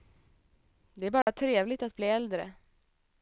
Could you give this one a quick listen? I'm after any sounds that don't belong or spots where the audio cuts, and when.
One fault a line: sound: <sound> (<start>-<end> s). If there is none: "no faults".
sound: dropout (1.2-1.3 s)